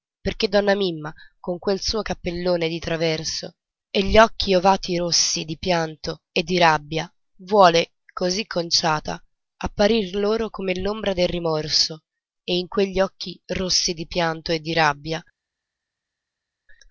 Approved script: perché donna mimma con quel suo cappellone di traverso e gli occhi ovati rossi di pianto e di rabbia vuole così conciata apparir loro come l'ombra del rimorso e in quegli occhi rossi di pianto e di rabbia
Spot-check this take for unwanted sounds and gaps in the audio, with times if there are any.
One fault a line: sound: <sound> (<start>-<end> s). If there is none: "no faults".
no faults